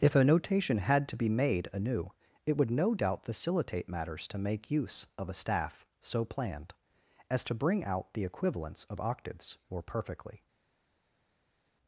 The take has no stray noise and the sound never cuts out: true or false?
true